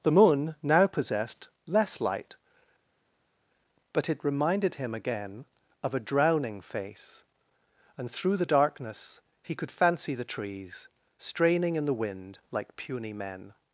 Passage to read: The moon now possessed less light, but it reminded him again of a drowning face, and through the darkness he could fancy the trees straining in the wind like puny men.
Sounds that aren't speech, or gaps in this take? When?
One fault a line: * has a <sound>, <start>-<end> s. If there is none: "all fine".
all fine